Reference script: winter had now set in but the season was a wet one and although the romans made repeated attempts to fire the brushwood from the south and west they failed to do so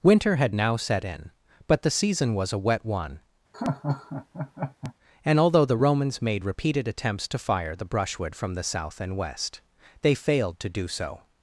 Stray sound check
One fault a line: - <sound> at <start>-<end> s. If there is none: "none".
- laugh at 3.5-4.9 s